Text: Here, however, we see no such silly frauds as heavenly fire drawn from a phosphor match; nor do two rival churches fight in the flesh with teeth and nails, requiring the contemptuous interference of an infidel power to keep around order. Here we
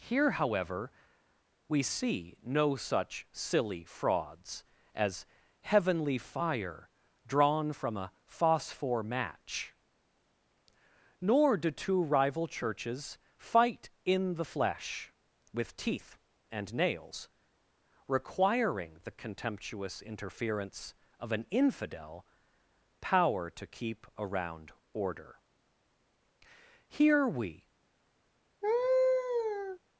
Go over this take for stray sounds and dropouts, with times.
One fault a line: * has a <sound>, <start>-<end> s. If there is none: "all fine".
* has a laugh, 28.6-29.8 s